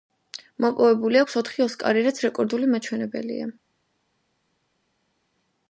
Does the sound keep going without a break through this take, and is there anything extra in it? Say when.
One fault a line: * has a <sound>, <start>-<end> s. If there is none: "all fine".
all fine